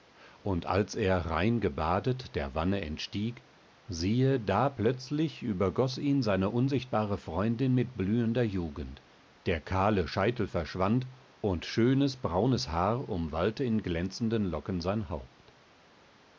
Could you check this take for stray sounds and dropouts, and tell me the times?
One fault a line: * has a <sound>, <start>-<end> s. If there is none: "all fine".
all fine